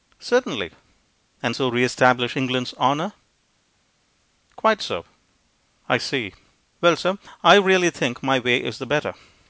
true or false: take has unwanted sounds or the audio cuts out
false